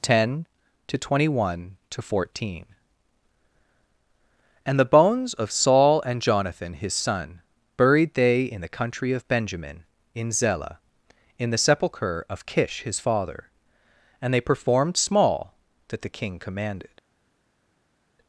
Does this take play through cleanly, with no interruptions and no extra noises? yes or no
yes